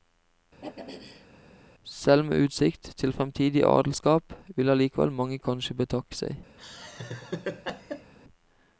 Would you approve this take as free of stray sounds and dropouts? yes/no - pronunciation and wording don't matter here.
no